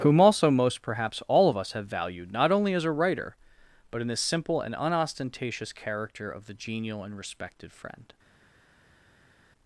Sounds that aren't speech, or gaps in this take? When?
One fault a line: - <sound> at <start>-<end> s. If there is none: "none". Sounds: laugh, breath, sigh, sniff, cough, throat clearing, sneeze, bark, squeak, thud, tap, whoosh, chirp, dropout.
none